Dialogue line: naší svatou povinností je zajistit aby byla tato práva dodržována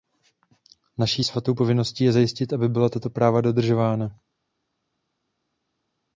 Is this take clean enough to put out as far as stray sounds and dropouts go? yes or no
yes